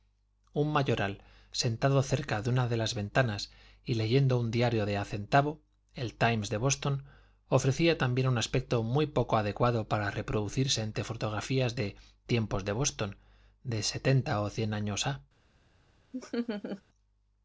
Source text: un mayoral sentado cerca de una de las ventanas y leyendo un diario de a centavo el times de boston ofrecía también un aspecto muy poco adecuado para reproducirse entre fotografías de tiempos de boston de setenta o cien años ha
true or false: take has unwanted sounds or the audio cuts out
true